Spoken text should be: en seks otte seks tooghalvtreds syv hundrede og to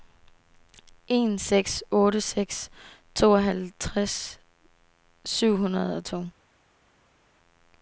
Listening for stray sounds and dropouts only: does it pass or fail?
pass